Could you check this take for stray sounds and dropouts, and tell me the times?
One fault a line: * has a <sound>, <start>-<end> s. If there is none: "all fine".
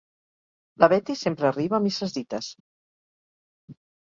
all fine